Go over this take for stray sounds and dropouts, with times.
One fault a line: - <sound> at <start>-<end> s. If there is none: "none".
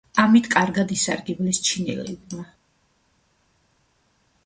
none